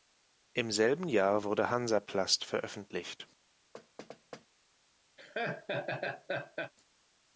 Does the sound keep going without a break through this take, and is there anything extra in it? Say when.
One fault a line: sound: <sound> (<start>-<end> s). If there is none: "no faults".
sound: thud (3.7-4.5 s)
sound: laugh (5.2-6.7 s)